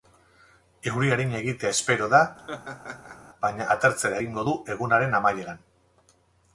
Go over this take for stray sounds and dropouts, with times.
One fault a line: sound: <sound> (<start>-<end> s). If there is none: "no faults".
sound: laugh (2.4-3.2 s)